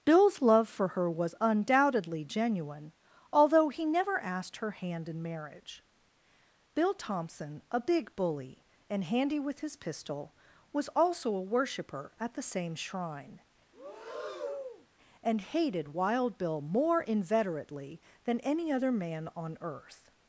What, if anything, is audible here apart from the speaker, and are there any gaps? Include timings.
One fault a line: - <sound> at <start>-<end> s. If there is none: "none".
- breath at 13.7-14.9 s